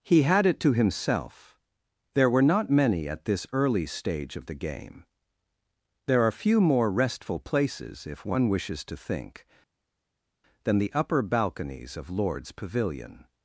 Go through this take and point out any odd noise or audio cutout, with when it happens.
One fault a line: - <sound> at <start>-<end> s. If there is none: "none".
none